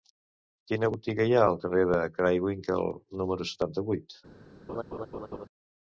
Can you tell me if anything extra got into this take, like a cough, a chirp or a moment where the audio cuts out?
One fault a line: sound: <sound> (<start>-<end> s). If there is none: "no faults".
sound: laugh (4.7-5.5 s)